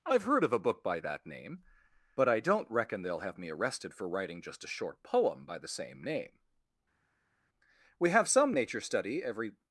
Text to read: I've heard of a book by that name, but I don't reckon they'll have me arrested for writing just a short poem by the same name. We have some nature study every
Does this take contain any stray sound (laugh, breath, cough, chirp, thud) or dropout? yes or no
no